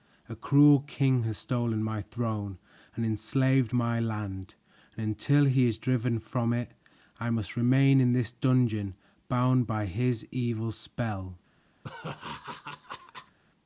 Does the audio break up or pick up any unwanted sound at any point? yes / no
yes